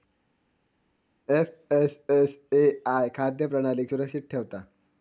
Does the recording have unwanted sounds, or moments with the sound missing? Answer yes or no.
no